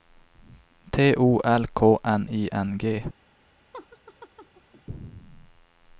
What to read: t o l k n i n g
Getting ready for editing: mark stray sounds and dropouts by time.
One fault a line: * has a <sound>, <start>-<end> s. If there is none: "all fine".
* has a laugh, 3.7-4.8 s